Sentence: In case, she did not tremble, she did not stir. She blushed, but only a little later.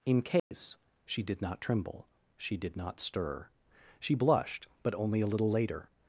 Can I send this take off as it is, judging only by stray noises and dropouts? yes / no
no